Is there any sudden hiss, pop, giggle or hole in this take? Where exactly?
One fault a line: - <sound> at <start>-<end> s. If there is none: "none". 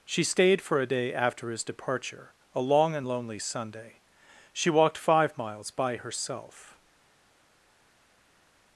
none